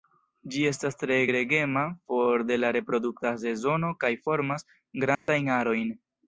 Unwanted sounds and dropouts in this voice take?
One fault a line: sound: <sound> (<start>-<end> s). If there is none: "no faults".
sound: dropout (5.2-5.3 s)